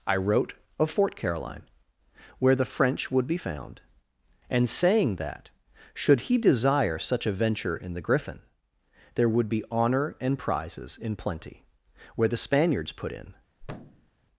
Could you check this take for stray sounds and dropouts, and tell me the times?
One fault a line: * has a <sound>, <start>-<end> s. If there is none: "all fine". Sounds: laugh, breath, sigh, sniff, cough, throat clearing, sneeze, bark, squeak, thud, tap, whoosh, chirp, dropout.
* has a thud, 13.6-14.1 s